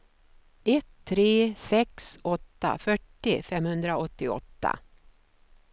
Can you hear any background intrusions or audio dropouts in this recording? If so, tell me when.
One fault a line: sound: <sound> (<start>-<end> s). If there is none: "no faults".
no faults